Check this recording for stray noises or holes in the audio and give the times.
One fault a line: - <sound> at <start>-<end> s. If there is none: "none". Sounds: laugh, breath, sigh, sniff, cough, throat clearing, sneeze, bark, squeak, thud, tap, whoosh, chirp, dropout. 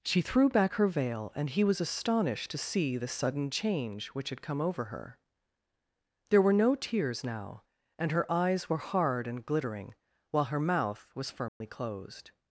- dropout at 11.5-11.6 s